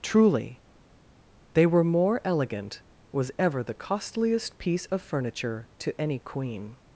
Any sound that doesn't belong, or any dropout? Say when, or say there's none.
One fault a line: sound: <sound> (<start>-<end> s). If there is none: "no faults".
no faults